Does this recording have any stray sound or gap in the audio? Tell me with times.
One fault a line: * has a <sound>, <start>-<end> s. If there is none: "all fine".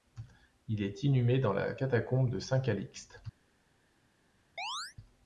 * has a chirp, 4.6-5.0 s